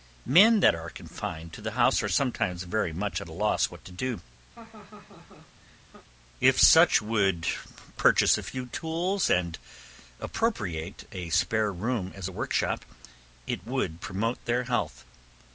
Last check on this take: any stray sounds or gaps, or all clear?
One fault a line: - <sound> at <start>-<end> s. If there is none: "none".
- laugh at 4.5-6.1 s